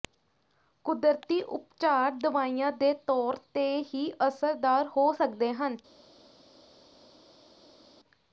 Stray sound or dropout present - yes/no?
no